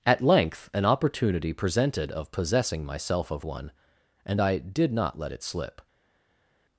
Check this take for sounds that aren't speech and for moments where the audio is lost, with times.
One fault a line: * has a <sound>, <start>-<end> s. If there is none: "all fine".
all fine